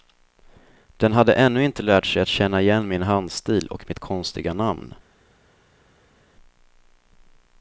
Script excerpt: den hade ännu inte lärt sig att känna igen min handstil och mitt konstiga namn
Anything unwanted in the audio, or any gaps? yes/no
no